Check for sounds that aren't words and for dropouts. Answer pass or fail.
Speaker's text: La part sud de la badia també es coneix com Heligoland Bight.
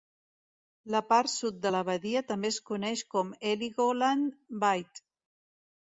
pass